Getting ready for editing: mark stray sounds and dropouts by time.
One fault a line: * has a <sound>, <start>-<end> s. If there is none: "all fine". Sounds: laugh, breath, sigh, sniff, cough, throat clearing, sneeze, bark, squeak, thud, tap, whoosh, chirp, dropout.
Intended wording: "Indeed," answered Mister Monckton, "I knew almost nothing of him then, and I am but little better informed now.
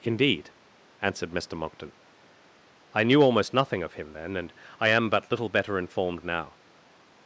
all fine